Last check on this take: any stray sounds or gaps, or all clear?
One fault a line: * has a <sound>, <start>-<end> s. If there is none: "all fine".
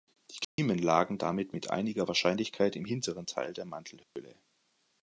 * has a dropout, 0.4-0.6 s
* has a dropout, 4.0-4.2 s